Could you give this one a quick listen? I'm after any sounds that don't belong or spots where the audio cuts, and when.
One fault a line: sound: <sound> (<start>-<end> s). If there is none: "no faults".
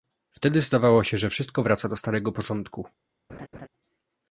sound: laugh (3.3-3.7 s)